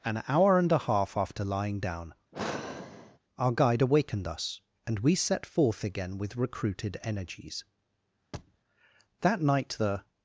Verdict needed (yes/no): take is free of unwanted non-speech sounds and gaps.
no